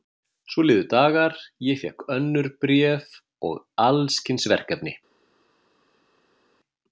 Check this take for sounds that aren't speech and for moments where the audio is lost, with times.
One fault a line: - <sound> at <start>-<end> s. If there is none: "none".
none